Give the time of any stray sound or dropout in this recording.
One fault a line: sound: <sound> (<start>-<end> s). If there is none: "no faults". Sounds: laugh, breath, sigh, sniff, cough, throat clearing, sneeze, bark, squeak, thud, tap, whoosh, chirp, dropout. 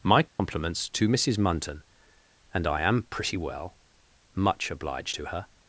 sound: dropout (0.3-0.4 s)